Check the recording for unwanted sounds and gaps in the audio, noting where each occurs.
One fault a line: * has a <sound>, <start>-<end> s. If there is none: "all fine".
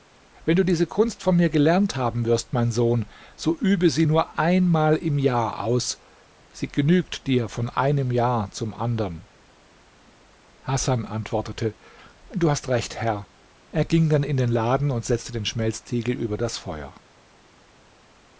all fine